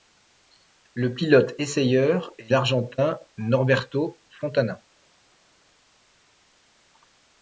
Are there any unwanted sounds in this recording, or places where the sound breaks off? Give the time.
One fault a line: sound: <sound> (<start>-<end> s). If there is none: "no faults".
no faults